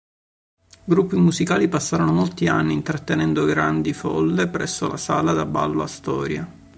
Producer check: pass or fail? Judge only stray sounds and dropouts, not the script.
pass